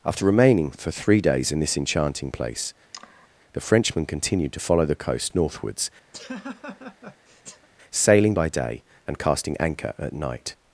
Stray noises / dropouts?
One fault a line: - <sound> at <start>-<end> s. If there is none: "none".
- sigh at 2.9-3.3 s
- laugh at 6.1-7.7 s